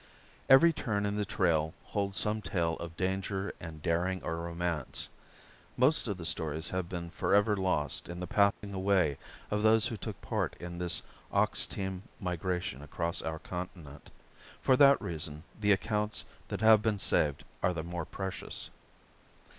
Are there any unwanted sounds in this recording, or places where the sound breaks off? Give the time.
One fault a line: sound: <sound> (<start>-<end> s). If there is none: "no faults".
sound: dropout (8.5-8.6 s)